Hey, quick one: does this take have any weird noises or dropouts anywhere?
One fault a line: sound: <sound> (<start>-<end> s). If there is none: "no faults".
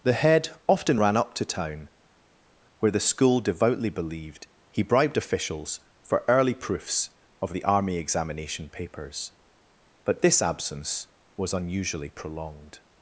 no faults